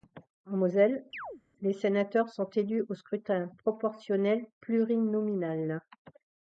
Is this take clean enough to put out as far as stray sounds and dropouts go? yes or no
no